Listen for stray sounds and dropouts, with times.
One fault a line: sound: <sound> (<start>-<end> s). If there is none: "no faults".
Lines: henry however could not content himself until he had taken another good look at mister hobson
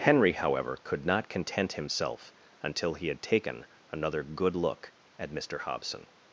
no faults